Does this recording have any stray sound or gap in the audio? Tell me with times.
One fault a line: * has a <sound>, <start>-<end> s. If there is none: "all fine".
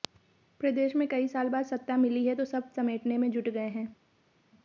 all fine